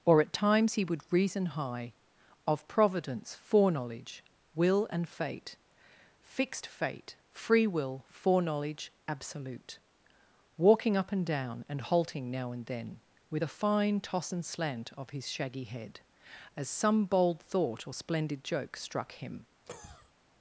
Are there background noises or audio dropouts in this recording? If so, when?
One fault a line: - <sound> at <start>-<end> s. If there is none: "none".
- cough at 19.7-20.1 s